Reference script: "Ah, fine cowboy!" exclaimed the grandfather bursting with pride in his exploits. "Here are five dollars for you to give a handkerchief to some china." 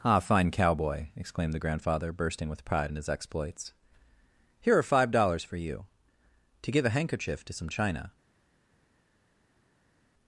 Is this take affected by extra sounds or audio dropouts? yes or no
no